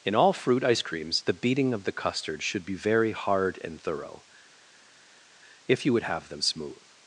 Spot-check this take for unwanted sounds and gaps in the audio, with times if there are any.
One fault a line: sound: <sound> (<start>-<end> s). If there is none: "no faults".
no faults